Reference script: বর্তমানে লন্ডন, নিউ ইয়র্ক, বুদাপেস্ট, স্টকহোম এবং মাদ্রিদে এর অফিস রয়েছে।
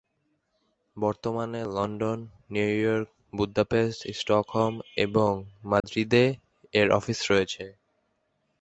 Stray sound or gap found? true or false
true